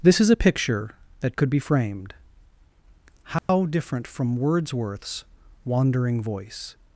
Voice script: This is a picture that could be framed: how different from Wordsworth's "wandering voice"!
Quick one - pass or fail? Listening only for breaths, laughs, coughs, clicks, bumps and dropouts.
fail